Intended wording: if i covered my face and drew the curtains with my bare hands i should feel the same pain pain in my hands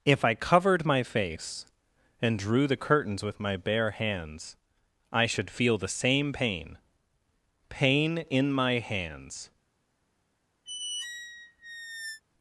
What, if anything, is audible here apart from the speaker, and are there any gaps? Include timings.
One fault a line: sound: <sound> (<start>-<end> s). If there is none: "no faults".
sound: squeak (10.7-12.2 s)